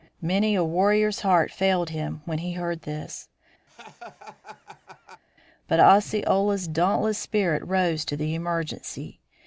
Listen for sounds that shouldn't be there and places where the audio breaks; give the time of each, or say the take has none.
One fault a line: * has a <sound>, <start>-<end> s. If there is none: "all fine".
* has a laugh, 3.7-5.2 s